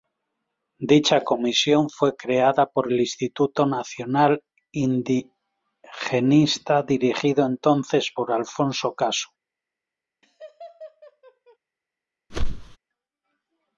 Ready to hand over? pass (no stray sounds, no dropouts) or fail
fail